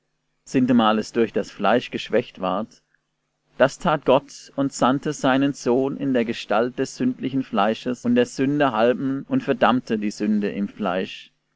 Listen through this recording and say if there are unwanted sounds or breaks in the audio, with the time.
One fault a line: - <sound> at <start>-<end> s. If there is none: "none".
none